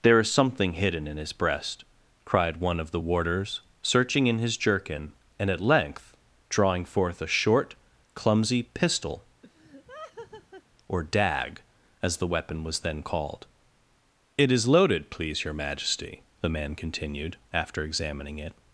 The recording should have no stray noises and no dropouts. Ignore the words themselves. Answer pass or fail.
fail